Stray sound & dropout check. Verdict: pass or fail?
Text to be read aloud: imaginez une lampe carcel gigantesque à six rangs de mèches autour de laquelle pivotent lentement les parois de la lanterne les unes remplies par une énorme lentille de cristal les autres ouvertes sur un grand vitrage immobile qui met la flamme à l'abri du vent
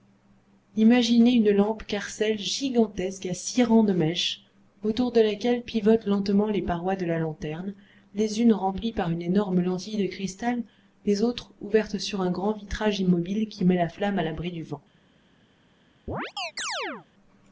fail